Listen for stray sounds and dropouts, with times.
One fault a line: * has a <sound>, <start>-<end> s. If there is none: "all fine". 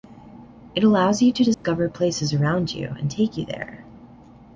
* has a dropout, 1.5-1.6 s